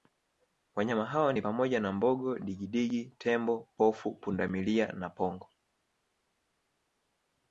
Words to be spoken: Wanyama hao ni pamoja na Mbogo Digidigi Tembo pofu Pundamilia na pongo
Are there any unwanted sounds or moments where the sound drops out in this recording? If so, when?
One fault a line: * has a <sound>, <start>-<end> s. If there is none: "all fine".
all fine